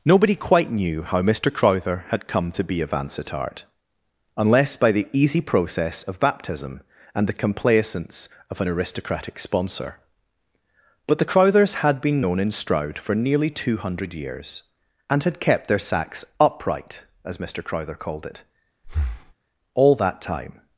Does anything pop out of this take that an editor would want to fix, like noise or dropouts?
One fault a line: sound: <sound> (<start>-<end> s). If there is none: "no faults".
sound: breath (18.8-19.3 s)